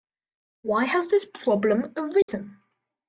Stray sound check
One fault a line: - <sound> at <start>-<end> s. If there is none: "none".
- dropout at 2.2-2.3 s